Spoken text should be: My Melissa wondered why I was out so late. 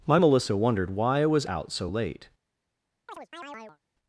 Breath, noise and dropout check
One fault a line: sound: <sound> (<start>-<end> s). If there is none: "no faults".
sound: chirp (3.1-3.8 s)